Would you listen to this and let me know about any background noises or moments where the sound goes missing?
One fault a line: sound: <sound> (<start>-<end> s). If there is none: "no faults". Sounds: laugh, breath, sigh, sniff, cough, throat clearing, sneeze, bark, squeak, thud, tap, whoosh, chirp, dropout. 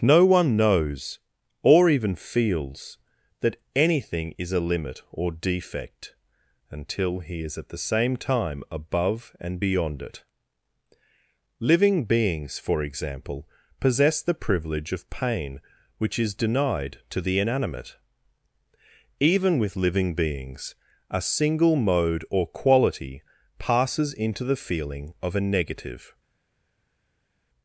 no faults